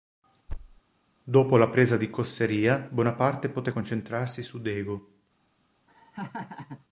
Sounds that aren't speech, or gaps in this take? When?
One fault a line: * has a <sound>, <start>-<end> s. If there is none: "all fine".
* has a thud, 0.5-0.8 s
* has a laugh, 5.9-6.8 s